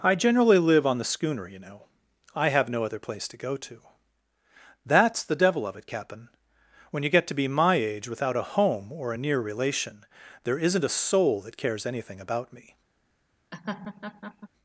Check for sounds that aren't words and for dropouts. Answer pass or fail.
fail